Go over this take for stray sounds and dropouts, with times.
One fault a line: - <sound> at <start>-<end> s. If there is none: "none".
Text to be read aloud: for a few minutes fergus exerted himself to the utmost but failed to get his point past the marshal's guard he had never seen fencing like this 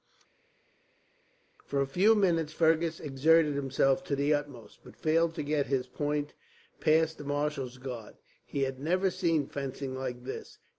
none